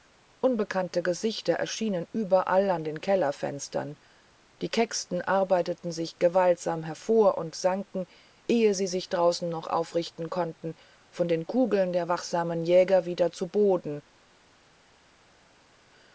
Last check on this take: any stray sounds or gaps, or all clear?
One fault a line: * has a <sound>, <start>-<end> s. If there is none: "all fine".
all fine